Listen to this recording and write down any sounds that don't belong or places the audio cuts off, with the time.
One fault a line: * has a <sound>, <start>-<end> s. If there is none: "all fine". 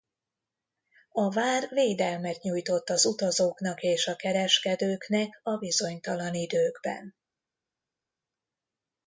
all fine